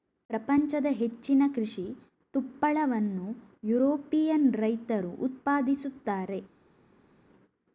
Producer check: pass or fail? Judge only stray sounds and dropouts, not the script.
pass